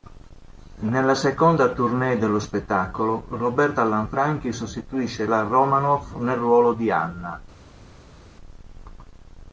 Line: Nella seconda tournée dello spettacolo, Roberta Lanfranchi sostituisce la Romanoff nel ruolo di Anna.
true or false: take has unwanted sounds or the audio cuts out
false